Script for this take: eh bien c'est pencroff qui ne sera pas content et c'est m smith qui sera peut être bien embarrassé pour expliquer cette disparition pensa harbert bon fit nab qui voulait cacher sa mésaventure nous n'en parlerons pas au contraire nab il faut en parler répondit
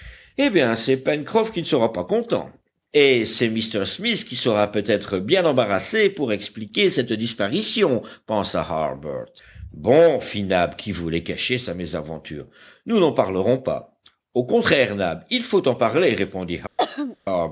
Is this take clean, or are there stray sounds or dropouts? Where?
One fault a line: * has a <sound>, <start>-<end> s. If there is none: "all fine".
* has a throat clearing, 16.8-17.2 s